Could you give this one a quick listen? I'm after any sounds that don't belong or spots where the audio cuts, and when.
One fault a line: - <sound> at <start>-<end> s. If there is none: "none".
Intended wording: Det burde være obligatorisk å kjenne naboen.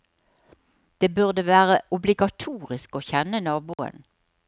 - dropout at 3.7-3.8 s